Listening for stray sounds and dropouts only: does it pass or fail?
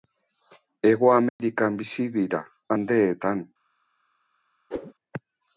fail